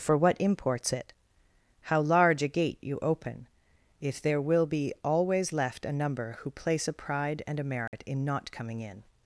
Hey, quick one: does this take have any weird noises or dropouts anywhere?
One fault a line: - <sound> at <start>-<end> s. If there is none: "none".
- dropout at 7.9-7.9 s